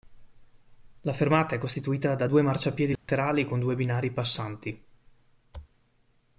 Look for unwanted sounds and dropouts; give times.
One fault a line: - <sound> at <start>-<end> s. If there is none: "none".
- dropout at 3.0-3.1 s